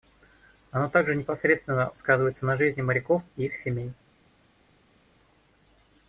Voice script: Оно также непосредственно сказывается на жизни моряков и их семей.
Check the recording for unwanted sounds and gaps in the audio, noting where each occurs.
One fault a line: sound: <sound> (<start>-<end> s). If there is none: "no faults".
no faults